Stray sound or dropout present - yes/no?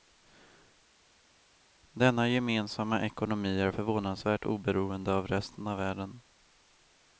no